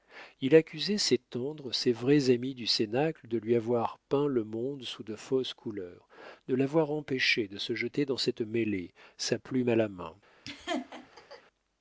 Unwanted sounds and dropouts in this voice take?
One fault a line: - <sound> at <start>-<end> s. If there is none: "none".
- laugh at 10.5-11.4 s